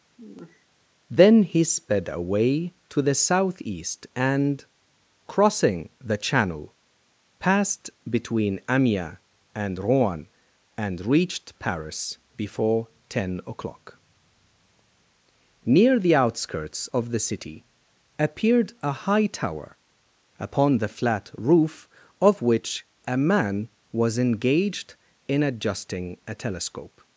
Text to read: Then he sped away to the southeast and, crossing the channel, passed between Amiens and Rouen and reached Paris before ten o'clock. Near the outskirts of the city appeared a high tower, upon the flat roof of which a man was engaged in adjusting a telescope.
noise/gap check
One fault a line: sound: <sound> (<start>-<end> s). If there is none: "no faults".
sound: sigh (0.2-0.7 s)